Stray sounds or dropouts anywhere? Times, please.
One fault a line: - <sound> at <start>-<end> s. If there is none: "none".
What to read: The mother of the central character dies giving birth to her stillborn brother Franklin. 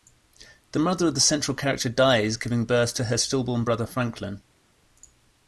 none